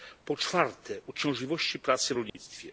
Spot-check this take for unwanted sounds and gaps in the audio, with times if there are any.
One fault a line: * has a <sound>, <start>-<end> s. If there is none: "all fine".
* has a dropout, 2.3-2.3 s